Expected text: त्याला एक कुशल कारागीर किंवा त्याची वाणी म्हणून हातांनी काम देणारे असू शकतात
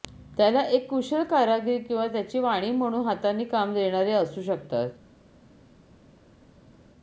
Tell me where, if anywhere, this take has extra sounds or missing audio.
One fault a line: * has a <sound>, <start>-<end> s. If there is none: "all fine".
all fine